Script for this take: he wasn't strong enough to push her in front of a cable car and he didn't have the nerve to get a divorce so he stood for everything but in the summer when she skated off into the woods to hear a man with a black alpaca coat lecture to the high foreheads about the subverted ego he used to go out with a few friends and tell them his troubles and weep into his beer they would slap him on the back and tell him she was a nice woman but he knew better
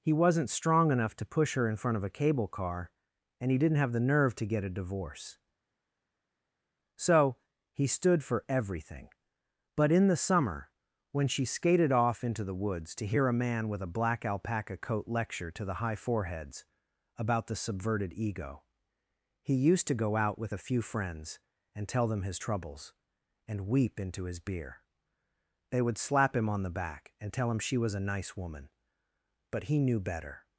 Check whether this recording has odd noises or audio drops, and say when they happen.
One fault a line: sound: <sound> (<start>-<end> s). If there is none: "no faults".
no faults